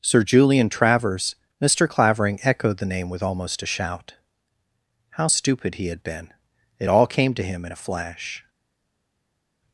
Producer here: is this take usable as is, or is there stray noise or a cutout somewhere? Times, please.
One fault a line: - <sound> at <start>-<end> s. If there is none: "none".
none